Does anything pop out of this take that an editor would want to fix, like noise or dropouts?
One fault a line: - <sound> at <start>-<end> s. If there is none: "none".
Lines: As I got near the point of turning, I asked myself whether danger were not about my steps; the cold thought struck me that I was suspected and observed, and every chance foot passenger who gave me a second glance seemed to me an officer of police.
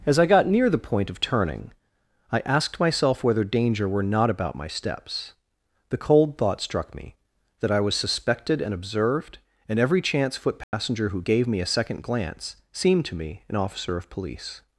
- dropout at 10.6-10.7 s